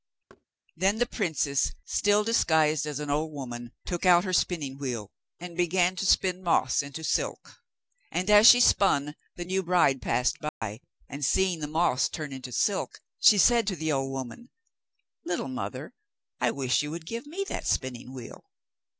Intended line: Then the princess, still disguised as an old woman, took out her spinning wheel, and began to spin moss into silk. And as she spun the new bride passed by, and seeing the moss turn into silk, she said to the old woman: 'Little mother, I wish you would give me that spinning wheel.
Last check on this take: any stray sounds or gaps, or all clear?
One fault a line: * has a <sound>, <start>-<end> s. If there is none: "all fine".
* has a thud, 0.3-0.5 s
* has a dropout, 10.5-10.6 s